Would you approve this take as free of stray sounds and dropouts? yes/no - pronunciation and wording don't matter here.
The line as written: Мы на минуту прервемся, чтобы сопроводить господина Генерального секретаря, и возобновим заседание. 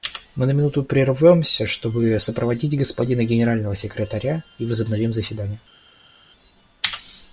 yes